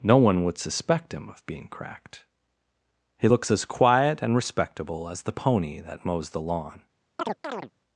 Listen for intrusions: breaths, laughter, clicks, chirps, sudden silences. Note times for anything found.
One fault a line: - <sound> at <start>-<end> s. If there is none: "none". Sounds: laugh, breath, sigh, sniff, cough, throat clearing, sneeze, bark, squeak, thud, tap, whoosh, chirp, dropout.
- chirp at 7.2-7.7 s